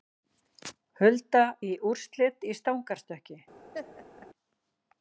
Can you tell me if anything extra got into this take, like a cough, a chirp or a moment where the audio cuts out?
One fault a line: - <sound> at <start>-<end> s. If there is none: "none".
- laugh at 3.7-4.3 s